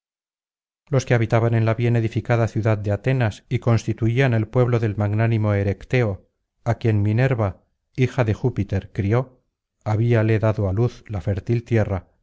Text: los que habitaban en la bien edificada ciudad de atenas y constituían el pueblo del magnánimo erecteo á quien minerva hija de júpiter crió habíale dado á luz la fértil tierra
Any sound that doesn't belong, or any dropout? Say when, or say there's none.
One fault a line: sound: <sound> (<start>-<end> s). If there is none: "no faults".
no faults